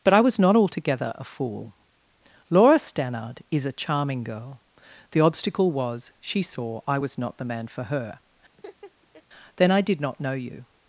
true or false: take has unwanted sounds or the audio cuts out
true